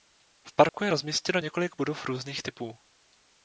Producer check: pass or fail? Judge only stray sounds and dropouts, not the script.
fail